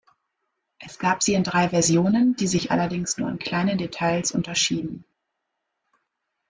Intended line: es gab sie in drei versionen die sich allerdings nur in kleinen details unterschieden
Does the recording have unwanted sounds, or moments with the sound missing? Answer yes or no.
no